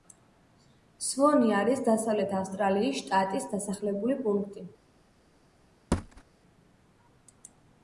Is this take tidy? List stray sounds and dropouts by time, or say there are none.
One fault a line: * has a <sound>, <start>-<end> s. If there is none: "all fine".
* has a thud, 5.9-6.2 s